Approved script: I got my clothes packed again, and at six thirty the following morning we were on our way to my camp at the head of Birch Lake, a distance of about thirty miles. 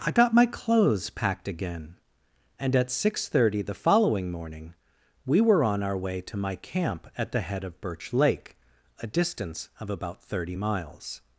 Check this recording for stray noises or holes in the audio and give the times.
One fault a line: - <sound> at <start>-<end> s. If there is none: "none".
none